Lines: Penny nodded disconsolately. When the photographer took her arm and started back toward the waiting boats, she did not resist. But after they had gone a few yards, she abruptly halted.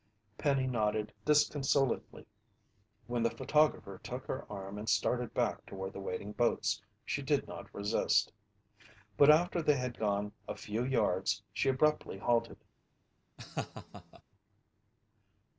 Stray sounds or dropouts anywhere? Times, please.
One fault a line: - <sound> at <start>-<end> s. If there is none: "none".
- laugh at 13.4-14.2 s